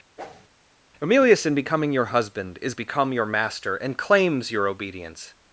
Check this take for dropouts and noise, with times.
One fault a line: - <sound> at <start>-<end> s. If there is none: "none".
- whoosh at 0.2-0.5 s